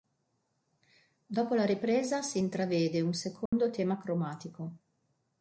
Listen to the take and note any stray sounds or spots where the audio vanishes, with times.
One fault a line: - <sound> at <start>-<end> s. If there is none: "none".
- dropout at 3.5-3.5 s